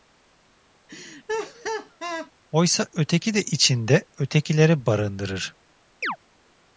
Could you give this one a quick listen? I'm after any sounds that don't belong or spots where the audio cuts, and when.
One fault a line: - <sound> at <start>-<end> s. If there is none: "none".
- laugh at 0.9-2.3 s
- chirp at 6.0-6.2 s